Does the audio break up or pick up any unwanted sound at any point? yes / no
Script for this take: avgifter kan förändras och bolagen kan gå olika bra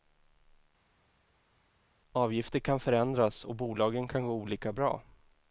no